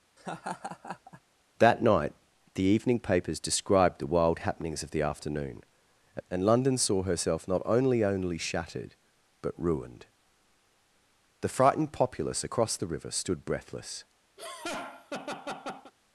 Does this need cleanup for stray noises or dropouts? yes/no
yes